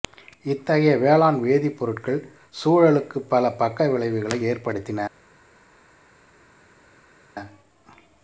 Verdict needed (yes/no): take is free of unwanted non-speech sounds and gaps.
yes